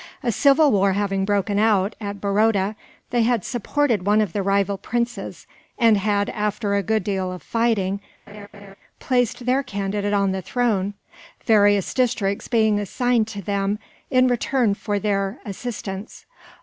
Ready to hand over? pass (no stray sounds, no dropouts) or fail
fail